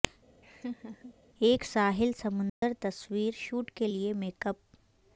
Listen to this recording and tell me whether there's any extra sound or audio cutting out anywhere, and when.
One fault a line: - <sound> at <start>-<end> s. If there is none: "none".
- laugh at 0.4-1.1 s
- dropout at 2.5-2.6 s